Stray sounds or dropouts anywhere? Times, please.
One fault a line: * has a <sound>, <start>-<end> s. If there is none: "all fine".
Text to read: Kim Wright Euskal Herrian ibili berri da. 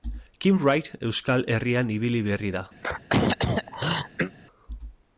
* has a throat clearing, 2.8-4.3 s